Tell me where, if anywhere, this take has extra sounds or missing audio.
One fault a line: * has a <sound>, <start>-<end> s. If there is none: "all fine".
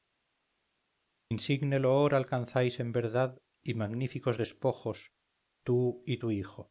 all fine